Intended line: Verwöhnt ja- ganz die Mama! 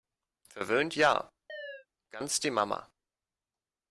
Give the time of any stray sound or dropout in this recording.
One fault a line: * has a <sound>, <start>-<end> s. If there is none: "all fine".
* has a chirp, 1.5-1.9 s